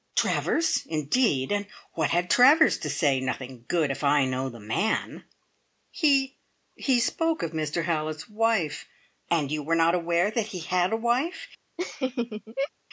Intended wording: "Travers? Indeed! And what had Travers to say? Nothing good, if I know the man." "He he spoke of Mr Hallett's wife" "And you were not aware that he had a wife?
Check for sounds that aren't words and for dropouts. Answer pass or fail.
fail